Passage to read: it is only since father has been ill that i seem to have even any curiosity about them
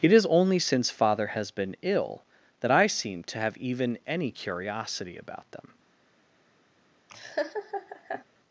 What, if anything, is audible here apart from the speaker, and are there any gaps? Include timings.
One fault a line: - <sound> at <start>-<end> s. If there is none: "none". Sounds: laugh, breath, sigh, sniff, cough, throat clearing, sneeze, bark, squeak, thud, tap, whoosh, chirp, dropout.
- laugh at 7.1-8.2 s